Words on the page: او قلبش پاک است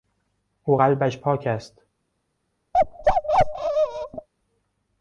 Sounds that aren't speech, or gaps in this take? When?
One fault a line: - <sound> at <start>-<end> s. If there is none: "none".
- bark at 2.7-4.3 s